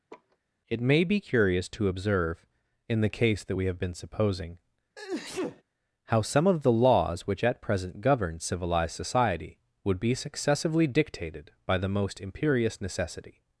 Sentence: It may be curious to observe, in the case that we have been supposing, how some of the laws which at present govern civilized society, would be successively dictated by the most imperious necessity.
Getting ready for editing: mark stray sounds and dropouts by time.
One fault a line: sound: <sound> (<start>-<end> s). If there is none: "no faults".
sound: laugh (0.1-0.4 s)
sound: sneeze (5.0-5.6 s)